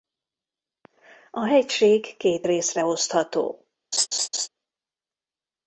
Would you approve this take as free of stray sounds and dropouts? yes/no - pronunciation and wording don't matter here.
no